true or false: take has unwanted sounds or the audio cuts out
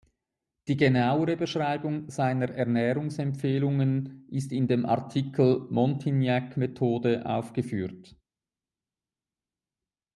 false